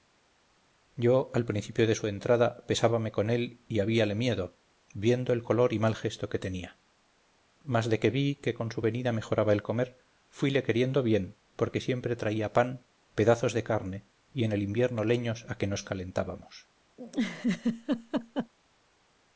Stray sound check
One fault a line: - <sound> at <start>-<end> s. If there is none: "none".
- laugh at 17.0-18.5 s